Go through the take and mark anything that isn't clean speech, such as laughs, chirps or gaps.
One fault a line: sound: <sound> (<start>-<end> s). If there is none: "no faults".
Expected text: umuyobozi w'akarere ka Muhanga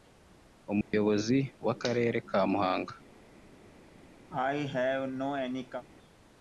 sound: dropout (0.8-0.9 s)
sound: cough (4.3-5.8 s)